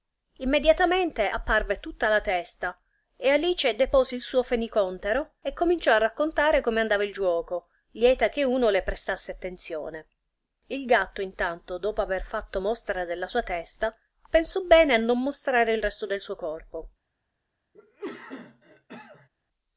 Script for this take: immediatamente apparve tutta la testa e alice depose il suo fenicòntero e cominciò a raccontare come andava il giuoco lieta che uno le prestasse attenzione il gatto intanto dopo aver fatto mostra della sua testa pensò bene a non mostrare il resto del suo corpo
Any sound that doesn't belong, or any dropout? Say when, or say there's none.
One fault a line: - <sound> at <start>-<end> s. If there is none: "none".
- cough at 17.7-19.3 s